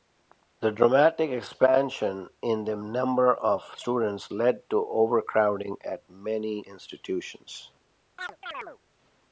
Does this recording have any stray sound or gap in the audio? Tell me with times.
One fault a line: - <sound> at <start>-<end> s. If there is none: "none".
- chirp at 8.2-8.8 s